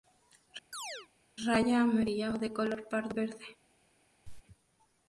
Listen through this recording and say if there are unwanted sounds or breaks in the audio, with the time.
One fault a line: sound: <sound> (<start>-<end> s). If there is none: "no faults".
sound: chirp (0.7-1.1 s)
sound: cough (4.3-4.4 s)